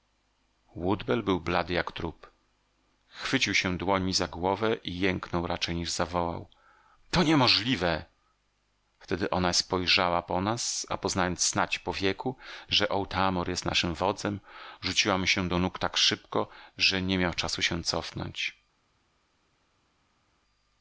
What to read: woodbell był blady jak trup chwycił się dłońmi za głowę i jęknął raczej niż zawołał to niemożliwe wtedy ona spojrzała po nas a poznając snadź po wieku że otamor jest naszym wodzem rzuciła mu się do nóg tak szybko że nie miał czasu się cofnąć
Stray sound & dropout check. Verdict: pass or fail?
pass